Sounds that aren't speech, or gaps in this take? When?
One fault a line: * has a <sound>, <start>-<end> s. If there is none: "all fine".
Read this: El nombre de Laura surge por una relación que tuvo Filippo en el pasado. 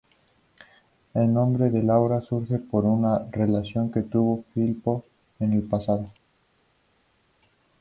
all fine